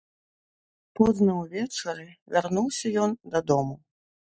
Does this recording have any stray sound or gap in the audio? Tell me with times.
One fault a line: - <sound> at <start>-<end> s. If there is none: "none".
none